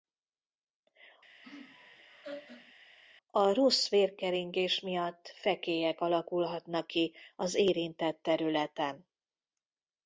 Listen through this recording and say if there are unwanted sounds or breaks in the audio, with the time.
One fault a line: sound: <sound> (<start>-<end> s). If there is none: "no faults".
sound: laugh (1.4-2.7 s)